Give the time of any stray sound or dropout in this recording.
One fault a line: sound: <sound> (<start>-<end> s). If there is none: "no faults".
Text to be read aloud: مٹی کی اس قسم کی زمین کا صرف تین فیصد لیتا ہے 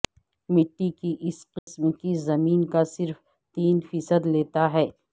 sound: dropout (1.6-1.7 s)